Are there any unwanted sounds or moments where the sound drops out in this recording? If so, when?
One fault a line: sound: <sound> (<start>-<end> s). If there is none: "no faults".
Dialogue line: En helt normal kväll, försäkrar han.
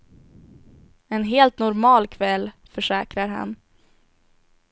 no faults